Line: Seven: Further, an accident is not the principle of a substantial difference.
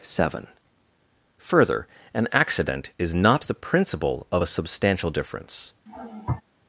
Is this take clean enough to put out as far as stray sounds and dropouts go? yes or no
no